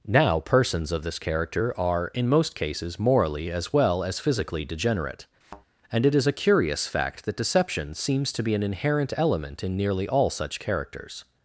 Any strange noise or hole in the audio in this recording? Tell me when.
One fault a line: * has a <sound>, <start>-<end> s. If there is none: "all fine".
* has a thud, 5.4-5.7 s